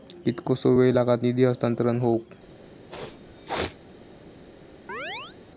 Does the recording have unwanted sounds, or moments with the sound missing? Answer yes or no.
yes